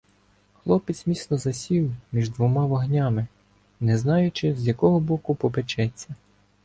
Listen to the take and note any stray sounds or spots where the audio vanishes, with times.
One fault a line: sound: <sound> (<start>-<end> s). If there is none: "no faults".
no faults